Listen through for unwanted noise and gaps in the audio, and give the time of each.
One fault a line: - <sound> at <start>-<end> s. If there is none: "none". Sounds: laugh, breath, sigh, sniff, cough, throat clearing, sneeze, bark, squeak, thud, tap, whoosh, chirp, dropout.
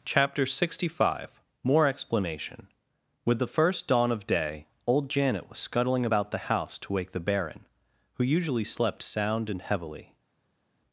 none